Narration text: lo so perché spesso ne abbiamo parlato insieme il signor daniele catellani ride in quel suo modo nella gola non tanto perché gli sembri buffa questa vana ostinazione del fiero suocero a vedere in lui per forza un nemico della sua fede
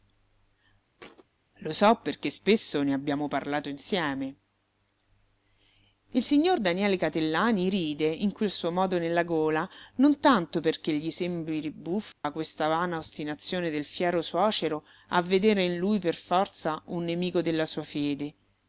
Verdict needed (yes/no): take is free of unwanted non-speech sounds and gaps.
no